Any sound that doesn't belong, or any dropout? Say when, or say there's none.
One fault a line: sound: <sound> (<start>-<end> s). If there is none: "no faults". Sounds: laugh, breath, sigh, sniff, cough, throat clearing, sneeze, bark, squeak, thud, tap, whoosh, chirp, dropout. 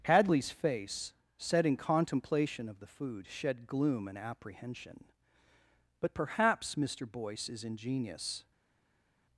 no faults